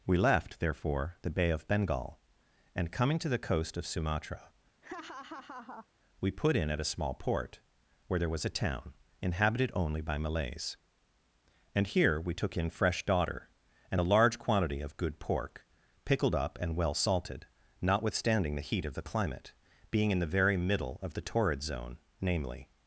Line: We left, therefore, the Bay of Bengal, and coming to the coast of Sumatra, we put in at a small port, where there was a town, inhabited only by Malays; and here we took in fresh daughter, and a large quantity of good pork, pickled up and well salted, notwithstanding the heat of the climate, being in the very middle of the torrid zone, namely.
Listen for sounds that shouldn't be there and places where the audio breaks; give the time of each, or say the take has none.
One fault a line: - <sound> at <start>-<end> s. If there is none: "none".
- laugh at 4.8-5.9 s